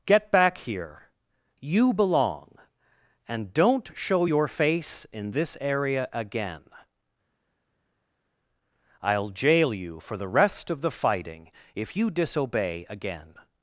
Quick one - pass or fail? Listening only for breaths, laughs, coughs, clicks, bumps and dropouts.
pass